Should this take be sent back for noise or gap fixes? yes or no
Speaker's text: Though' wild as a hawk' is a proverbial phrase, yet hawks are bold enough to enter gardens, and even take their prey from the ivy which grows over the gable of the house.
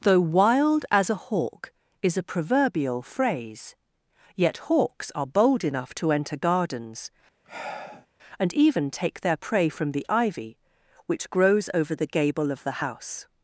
yes